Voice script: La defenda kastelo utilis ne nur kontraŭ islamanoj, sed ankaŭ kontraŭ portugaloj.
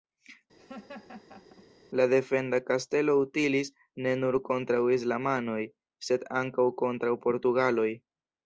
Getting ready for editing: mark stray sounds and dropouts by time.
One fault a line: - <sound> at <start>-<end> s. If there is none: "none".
- laugh at 0.6-1.7 s